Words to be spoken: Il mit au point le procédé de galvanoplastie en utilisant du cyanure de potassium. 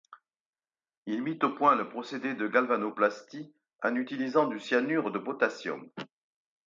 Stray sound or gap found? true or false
false